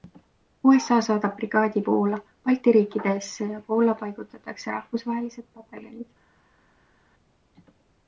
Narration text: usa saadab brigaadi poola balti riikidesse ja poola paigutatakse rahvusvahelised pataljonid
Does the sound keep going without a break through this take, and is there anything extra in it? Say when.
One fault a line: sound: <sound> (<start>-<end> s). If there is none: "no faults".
no faults